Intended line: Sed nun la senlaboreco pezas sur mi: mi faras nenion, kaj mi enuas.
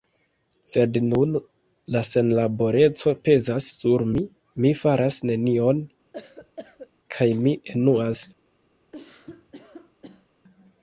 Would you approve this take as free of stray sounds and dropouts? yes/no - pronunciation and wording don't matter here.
no